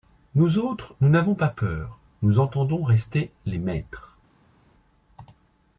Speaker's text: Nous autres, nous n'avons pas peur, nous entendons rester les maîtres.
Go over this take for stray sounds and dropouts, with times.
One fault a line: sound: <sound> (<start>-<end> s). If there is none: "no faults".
no faults